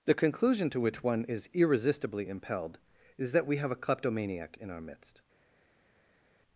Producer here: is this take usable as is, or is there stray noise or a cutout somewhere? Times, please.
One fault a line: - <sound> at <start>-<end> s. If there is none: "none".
none